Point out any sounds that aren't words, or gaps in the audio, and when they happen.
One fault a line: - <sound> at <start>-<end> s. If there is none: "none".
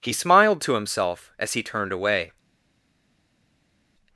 none